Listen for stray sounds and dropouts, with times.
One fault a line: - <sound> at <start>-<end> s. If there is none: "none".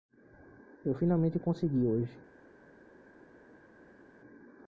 none